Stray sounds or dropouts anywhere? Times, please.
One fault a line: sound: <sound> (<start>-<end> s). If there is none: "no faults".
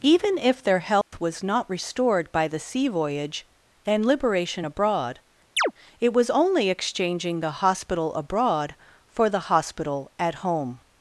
sound: dropout (1.0-1.1 s)
sound: chirp (5.6-5.7 s)